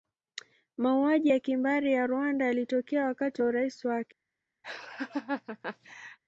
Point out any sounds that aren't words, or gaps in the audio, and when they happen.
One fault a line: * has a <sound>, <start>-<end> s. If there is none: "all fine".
* has a laugh, 4.6-6.2 s